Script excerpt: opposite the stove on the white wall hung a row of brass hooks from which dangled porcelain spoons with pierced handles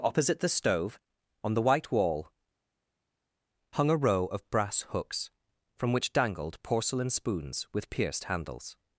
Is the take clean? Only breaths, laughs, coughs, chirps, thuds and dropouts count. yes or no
yes